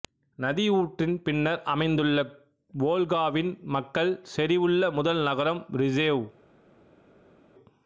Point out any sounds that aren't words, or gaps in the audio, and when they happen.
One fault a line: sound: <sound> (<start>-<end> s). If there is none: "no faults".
no faults